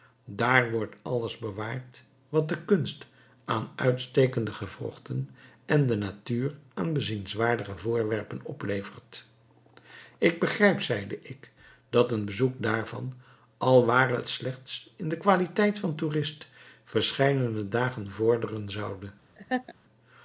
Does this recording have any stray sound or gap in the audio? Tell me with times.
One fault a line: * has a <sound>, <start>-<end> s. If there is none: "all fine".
* has a laugh, 19.4-19.7 s